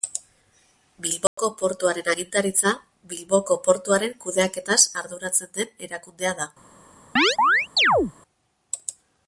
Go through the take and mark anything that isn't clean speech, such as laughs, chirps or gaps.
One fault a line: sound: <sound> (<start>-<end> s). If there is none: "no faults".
sound: dropout (1.3-1.4 s)
sound: chirp (7.2-8.1 s)